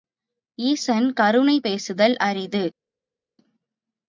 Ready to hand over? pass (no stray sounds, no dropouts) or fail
pass